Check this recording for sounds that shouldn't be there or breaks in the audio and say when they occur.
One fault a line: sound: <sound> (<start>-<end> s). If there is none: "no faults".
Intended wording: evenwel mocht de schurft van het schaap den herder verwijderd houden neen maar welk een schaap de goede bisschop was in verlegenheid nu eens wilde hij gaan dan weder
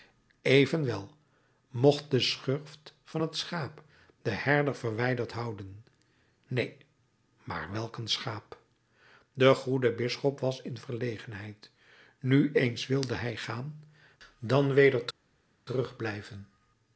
no faults